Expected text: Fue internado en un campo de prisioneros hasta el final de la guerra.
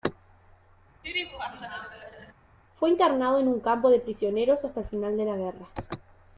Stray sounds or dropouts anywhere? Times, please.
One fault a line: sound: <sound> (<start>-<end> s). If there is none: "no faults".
sound: laugh (1.0-2.3 s)